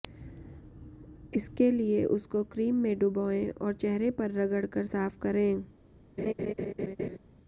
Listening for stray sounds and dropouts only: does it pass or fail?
fail